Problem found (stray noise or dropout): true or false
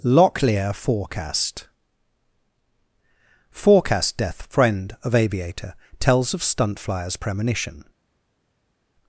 false